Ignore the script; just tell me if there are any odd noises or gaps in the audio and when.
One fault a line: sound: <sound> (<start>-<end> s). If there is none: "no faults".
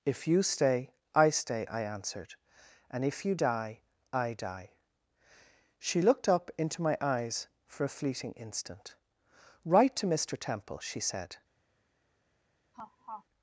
sound: laugh (12.7-13.2 s)